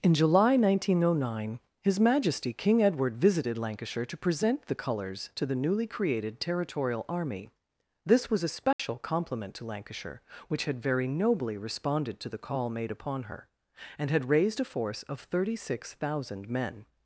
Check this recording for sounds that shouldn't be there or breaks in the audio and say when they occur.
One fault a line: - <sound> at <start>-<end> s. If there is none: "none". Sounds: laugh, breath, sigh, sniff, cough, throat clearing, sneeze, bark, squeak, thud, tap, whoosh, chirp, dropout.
- dropout at 8.7-8.8 s